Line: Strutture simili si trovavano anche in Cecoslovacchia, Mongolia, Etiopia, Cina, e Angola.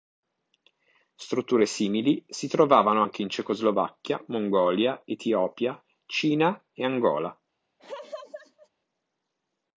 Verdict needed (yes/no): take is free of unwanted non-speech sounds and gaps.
no